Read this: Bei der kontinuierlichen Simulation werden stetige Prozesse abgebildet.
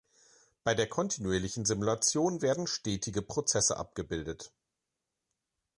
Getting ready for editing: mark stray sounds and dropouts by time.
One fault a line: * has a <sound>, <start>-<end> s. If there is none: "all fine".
all fine